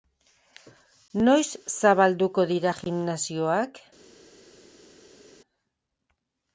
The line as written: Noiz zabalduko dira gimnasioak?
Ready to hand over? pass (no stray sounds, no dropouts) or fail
pass